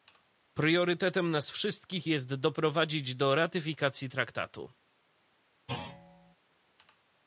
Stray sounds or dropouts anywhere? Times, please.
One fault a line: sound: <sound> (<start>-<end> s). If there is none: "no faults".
sound: thud (5.7-6.4 s)